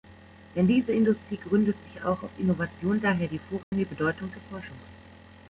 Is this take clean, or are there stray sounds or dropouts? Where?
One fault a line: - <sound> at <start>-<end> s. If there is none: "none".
- dropout at 3.6-3.7 s